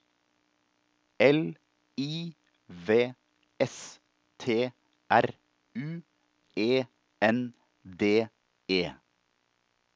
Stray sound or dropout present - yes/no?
no